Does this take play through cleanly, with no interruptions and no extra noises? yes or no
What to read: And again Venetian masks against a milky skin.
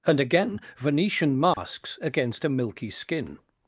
no